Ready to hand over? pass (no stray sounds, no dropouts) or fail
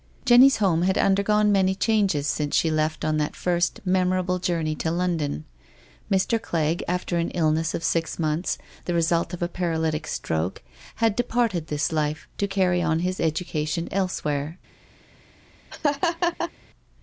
fail